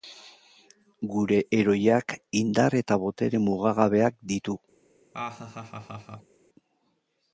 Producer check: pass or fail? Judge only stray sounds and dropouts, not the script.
fail